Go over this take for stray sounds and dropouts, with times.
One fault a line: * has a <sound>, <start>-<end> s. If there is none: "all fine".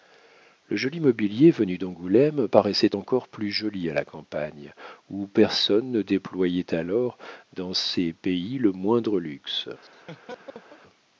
* has a laugh, 9.8-10.8 s